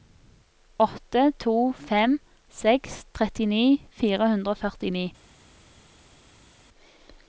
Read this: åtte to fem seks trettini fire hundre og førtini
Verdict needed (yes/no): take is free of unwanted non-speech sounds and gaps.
yes